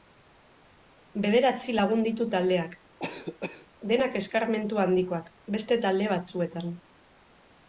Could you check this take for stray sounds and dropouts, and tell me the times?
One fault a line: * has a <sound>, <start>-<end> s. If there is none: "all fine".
* has a cough, 3.0-3.7 s